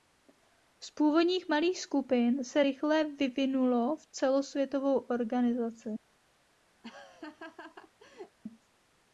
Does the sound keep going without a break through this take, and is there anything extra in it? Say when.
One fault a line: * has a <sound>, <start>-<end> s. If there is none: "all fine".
* has a laugh, 6.8-8.4 s